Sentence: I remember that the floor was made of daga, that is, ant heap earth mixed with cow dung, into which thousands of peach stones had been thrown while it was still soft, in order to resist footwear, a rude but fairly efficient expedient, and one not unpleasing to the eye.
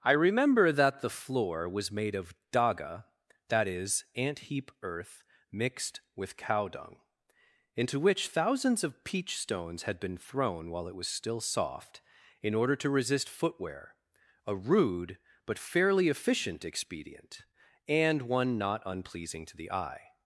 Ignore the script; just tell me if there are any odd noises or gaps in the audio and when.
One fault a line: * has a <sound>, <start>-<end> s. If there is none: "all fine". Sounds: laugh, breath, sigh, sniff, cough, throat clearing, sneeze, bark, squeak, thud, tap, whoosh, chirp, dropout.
all fine